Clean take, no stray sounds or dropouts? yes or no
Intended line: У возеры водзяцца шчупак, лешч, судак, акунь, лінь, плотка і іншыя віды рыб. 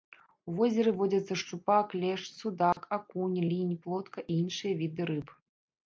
no